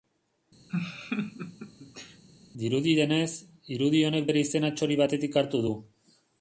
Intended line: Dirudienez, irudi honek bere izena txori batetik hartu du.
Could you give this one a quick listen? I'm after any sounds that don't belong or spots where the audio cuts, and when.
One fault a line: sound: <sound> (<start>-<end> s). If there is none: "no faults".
sound: laugh (0.7-2.2 s)